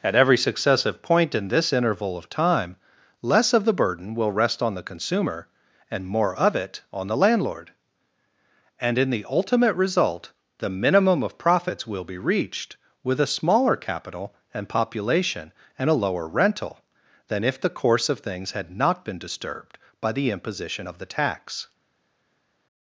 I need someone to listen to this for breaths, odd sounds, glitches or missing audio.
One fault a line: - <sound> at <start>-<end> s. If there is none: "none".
none